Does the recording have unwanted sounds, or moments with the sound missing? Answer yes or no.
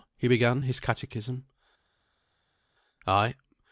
no